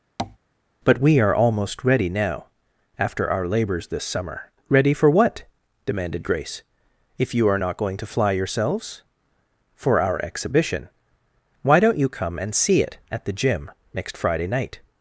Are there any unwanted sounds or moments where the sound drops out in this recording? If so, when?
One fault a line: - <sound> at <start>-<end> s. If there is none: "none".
- tap at 0.2-0.4 s